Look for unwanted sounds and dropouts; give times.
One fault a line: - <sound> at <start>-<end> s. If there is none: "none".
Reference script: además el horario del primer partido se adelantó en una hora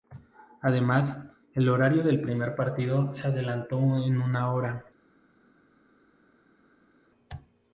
none